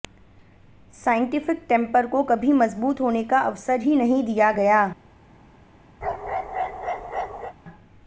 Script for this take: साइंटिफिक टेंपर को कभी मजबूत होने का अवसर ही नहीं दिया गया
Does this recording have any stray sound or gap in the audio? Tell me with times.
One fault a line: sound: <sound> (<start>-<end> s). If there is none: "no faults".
sound: bark (6.0-7.5 s)